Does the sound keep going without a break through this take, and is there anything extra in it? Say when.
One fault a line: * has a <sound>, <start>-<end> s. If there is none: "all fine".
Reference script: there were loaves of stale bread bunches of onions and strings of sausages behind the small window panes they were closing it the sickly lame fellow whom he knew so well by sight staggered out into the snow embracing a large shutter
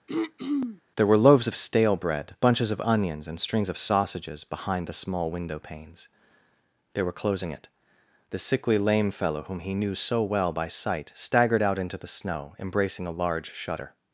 * has a throat clearing, 0.1-0.8 s